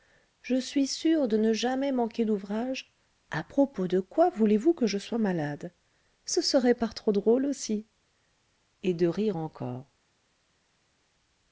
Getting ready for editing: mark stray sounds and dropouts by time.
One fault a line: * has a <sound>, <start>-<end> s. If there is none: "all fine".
all fine